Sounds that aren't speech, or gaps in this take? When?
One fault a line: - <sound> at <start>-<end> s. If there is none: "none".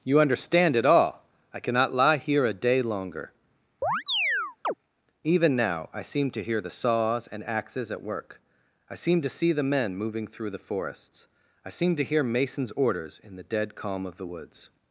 - chirp at 3.8-4.7 s